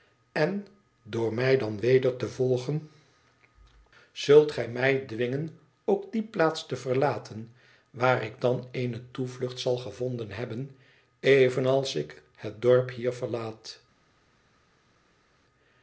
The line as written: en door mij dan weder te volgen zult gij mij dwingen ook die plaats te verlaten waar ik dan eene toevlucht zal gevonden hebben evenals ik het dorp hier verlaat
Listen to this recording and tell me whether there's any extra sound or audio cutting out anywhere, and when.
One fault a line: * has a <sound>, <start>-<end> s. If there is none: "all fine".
all fine